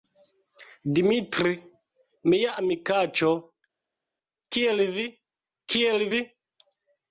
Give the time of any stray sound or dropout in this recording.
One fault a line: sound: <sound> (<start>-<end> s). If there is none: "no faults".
no faults